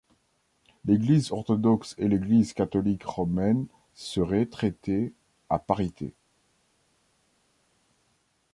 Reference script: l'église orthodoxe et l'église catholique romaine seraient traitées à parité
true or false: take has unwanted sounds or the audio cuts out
false